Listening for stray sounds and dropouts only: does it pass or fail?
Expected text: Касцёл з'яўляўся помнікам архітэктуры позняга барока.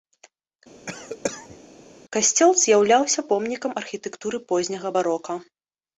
fail